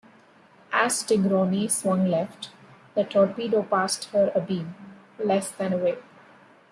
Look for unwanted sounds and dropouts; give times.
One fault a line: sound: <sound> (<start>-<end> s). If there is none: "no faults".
no faults